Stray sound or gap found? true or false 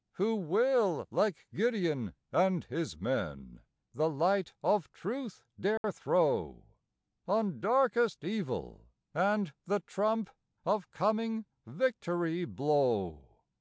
true